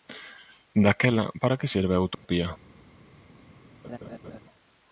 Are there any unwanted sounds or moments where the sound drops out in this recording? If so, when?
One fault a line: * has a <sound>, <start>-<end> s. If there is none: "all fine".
* has a dropout, 2.1-2.2 s
* has a laugh, 3.8-4.4 s